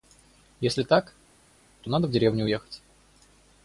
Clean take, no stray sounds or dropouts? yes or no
yes